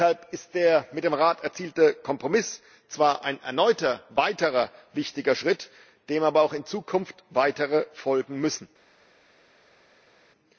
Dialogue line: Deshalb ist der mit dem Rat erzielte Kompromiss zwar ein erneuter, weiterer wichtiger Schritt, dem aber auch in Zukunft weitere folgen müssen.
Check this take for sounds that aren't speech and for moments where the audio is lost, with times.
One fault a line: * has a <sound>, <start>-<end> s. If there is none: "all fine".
all fine